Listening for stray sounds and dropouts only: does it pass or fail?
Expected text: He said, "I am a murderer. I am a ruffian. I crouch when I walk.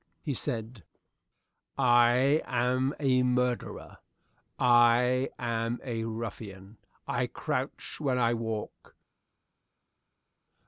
pass